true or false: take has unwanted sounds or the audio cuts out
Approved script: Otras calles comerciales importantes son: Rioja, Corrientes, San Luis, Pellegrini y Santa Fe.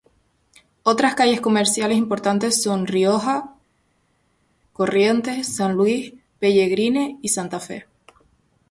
false